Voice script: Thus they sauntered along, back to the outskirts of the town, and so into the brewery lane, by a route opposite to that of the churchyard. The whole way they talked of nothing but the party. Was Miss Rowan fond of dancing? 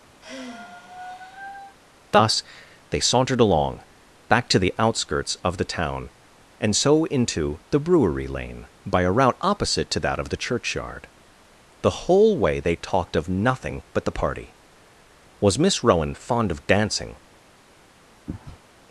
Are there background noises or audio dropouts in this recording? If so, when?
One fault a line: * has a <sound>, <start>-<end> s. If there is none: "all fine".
* has a sigh, 0.2-1.8 s
* has a sneeze, 18.3-18.6 s